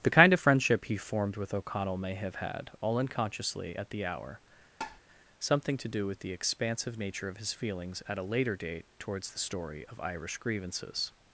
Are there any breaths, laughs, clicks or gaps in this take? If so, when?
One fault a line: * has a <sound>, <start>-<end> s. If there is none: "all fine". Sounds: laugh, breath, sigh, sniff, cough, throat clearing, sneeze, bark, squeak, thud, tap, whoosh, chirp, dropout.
* has a tap, 4.8-5.0 s